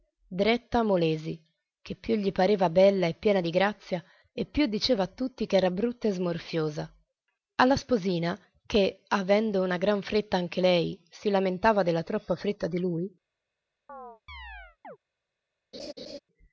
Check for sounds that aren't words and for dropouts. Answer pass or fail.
fail